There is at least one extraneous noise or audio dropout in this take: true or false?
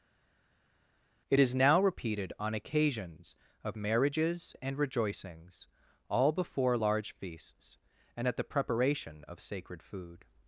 false